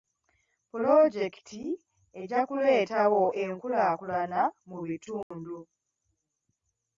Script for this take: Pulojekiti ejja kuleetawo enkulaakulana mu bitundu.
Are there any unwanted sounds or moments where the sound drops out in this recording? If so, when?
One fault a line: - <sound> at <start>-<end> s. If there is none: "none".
- dropout at 5.2-5.3 s